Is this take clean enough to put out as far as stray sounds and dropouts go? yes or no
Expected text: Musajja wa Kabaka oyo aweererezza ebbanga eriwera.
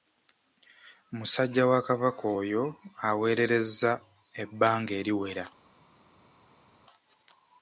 yes